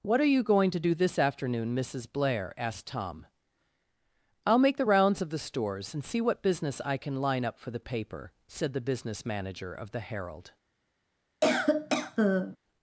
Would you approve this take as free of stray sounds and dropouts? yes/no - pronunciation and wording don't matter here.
no